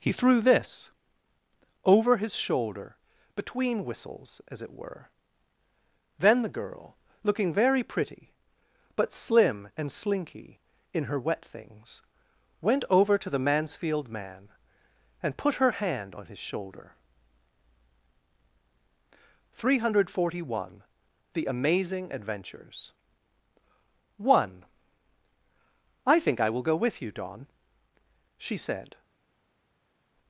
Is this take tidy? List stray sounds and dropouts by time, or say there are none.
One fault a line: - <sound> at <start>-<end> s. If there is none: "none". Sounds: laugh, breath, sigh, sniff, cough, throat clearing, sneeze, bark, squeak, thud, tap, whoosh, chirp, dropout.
none